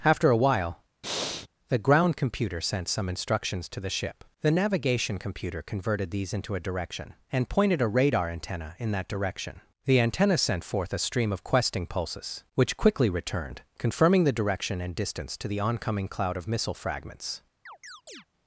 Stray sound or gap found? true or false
true